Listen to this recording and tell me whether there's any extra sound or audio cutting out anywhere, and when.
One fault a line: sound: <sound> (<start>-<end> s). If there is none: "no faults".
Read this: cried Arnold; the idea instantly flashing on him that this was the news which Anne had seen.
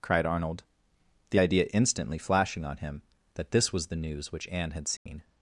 sound: dropout (5.0-5.1 s)